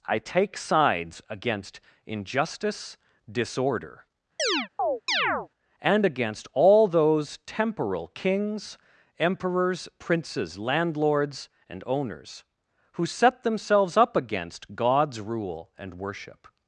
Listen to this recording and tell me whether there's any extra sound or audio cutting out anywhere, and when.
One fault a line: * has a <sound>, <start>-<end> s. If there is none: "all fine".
* has a chirp, 4.4-5.5 s